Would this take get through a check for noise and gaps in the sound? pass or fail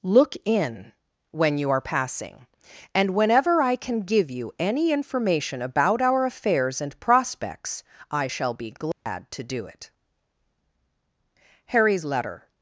fail